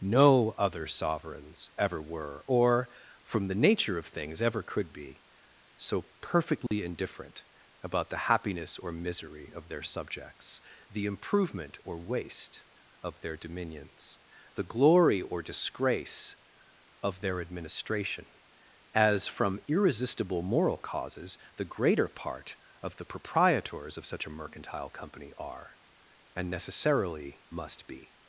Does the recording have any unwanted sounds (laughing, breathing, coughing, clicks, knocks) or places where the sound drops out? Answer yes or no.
yes